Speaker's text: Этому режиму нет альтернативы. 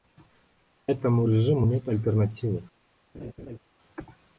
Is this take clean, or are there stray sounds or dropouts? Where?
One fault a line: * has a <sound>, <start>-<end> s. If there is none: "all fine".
* has a laugh, 3.1-3.6 s